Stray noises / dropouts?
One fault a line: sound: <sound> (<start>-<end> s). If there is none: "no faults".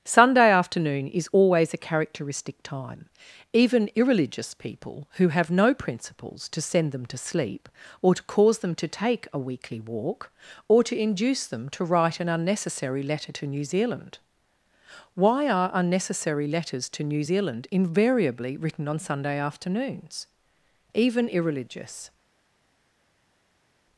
no faults